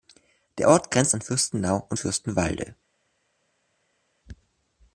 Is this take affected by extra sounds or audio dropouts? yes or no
no